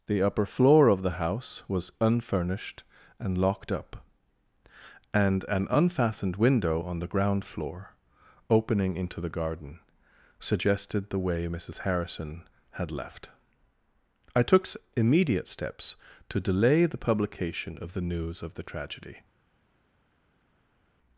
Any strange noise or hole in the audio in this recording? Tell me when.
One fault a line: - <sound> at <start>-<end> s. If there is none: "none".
none